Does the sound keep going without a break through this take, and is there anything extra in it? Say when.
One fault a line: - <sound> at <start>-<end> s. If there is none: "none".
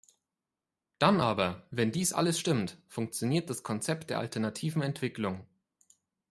none